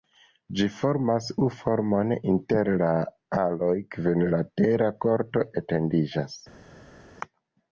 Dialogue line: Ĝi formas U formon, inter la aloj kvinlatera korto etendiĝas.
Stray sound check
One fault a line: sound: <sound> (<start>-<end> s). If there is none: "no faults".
no faults